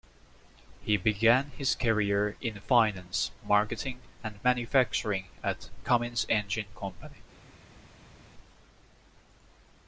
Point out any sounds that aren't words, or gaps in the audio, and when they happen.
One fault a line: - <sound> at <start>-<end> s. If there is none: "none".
none